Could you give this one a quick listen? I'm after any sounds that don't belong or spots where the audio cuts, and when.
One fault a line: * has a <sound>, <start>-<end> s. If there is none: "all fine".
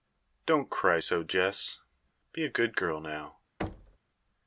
* has a thud, 3.6-4.0 s